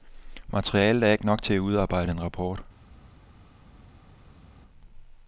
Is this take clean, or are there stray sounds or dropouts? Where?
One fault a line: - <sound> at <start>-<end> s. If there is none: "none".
none